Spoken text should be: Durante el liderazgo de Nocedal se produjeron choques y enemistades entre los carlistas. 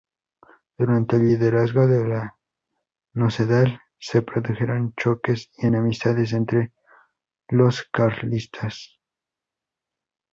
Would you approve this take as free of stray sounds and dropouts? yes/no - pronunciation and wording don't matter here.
yes